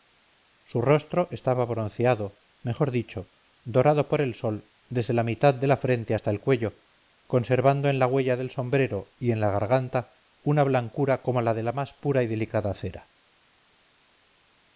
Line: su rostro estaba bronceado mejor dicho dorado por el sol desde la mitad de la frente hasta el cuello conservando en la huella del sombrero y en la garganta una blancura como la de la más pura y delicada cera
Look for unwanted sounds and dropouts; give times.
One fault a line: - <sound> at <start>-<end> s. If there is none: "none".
none